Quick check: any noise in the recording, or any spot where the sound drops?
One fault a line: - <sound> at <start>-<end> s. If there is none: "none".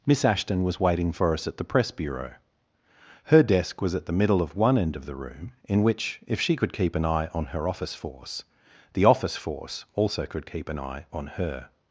none